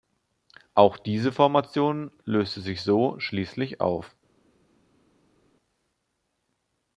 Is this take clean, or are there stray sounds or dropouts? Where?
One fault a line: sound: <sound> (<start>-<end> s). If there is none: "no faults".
no faults